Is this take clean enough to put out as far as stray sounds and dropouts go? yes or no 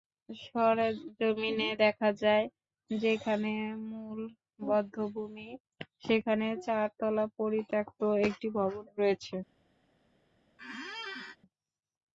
no